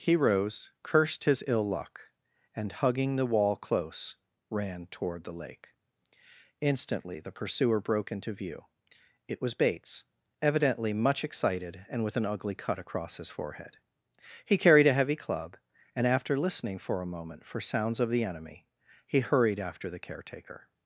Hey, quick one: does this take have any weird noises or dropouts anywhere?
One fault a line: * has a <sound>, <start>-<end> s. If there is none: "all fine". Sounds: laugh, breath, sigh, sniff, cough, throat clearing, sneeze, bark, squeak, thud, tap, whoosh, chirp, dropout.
all fine